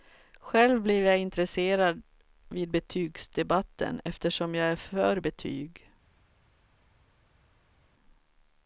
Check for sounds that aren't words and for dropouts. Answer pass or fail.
pass